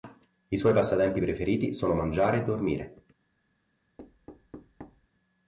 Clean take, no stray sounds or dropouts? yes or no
no